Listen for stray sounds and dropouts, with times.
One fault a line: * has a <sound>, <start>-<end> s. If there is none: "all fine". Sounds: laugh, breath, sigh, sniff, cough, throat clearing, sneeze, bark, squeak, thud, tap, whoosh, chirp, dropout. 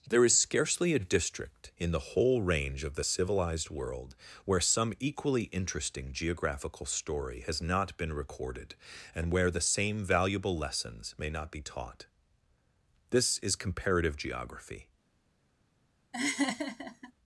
* has a laugh, 16.1-17.1 s